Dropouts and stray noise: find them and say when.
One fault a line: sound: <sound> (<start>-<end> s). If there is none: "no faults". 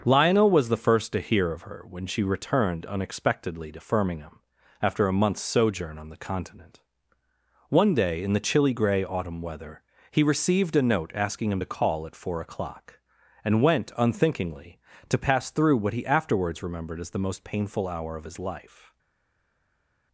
no faults